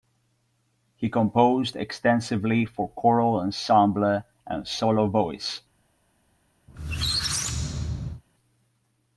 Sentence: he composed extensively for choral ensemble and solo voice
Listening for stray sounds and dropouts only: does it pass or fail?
fail